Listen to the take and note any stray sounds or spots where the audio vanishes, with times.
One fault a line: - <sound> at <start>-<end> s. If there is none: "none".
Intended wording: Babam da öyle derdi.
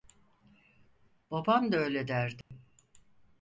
- dropout at 2.4-2.5 s